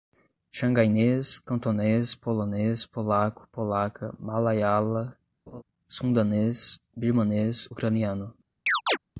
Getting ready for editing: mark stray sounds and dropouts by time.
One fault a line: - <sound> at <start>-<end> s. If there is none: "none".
- laugh at 5.5-5.6 s
- chirp at 8.7-9.0 s